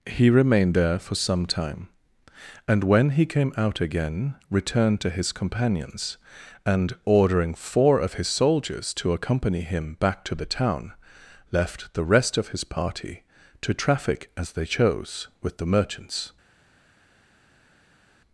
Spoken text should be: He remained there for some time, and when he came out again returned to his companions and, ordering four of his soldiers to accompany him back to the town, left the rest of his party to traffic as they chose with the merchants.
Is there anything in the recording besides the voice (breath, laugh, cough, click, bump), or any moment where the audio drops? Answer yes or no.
no